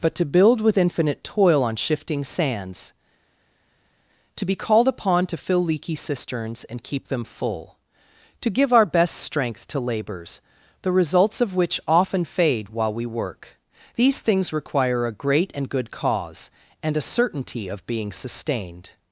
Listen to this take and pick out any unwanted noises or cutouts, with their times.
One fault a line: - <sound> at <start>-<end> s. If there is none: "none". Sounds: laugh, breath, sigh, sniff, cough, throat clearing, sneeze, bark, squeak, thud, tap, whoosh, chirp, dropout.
none